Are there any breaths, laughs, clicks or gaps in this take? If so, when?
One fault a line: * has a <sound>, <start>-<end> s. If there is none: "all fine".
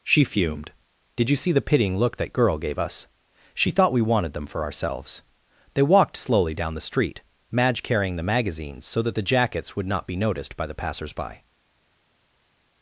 all fine